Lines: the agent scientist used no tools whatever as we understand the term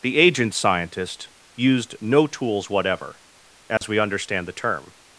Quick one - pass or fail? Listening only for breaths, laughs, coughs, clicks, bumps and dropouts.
fail